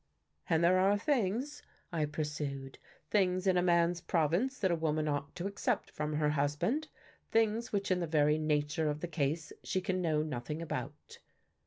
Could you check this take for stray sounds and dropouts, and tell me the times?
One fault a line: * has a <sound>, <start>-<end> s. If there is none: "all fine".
all fine